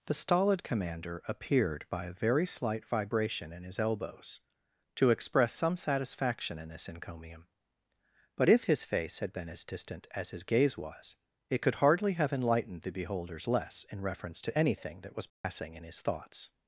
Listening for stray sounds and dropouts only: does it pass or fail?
fail